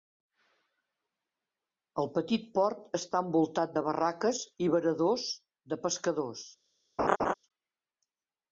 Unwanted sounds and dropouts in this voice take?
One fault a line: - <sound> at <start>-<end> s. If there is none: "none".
- laugh at 7.0-7.3 s